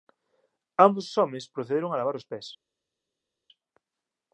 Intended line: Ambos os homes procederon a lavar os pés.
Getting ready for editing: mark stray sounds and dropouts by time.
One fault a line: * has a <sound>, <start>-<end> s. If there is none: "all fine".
all fine